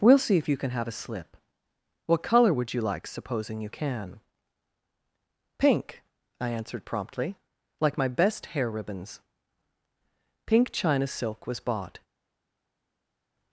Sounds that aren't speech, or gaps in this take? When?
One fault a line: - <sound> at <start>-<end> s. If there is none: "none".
none